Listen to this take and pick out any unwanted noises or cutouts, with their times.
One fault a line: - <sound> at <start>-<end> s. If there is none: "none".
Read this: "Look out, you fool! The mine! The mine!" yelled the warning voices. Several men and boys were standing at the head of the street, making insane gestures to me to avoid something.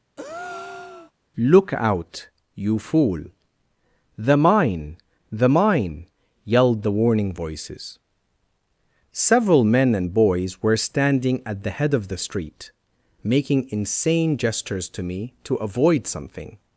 - breath at 0.2-1.1 s